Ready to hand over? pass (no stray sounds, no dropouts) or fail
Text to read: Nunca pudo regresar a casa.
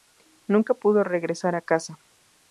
pass